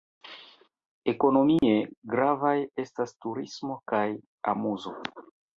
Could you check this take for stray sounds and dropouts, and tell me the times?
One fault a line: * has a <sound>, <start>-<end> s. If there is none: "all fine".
* has a dropout, 1.6-1.6 s